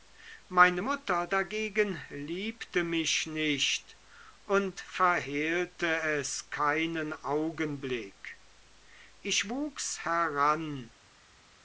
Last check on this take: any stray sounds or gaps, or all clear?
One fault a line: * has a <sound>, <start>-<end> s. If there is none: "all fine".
all fine